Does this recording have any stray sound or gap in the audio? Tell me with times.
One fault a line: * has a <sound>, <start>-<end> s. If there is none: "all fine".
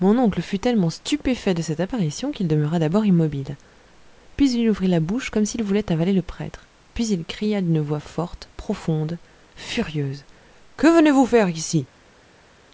all fine